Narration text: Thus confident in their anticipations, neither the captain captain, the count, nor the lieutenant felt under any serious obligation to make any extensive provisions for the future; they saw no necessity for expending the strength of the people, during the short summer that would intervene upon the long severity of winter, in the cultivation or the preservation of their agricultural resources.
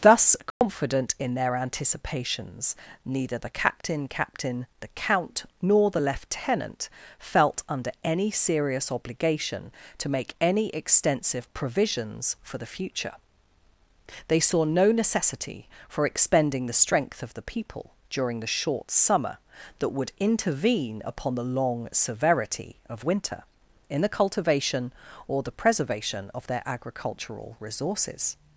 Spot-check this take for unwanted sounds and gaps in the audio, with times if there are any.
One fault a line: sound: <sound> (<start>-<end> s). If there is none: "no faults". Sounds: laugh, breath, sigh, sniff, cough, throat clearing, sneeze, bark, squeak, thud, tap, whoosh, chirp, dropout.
sound: dropout (0.5-0.6 s)